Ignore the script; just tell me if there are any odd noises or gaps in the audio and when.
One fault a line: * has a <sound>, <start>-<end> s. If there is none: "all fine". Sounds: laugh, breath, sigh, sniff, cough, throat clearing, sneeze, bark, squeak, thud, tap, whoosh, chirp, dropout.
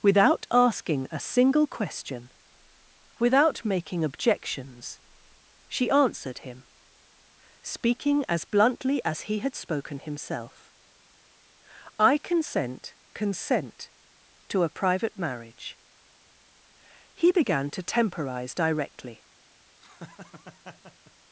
* has a laugh, 19.8-21.1 s